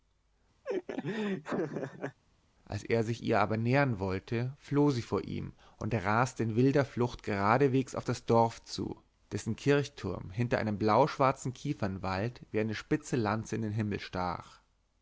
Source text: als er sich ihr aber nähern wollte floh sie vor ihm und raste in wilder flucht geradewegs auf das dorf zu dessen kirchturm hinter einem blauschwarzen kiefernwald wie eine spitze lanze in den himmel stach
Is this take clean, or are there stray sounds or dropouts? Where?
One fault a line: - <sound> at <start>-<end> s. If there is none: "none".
- laugh at 0.6-2.2 s